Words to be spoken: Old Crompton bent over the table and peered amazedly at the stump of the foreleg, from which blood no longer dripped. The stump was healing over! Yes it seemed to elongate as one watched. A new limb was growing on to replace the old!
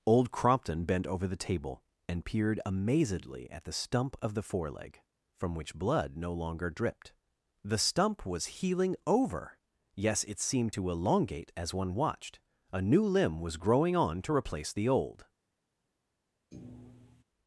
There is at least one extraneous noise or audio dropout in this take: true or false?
true